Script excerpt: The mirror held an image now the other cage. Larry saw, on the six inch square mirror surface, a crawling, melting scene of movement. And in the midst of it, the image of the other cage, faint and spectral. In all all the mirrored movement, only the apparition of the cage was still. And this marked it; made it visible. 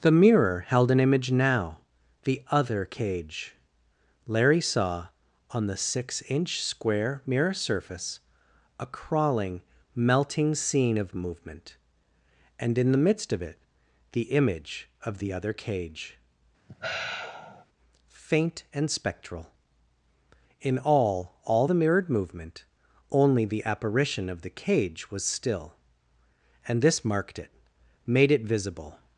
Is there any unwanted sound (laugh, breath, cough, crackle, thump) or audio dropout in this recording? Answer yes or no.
yes